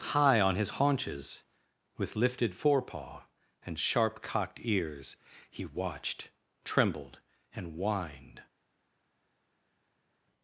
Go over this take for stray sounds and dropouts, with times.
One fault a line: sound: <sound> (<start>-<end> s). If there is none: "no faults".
no faults